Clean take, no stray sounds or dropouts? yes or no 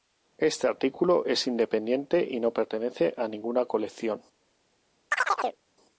no